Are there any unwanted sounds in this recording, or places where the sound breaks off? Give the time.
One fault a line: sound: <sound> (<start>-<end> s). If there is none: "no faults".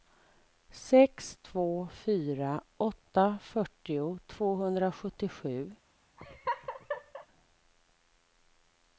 sound: laugh (6.2-7.3 s)